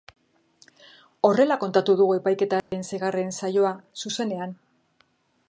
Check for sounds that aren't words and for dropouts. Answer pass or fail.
fail